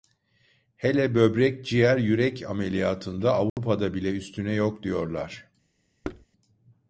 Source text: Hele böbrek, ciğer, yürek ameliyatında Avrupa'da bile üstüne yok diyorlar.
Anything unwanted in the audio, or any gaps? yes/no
yes